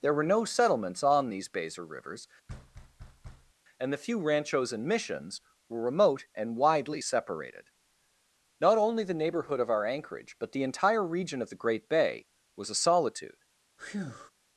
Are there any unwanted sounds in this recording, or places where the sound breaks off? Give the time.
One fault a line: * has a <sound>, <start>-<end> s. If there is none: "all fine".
* has a thud, 2.5-3.5 s
* has a breath, 13.8-14.3 s